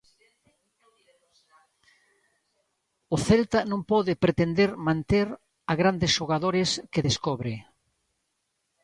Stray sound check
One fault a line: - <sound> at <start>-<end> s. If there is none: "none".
none